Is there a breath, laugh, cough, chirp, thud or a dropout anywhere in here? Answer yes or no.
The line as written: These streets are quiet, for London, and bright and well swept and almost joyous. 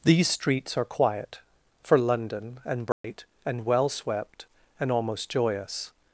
yes